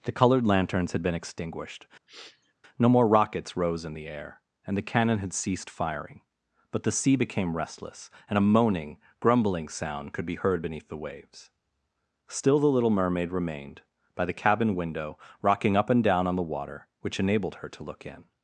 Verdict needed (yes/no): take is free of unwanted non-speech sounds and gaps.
no